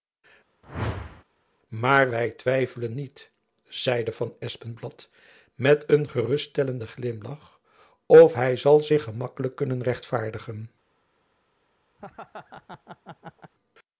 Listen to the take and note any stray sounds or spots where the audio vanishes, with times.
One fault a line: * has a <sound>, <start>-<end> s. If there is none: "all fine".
* has a whoosh, 0.6-1.2 s
* has a laugh, 12.0-13.5 s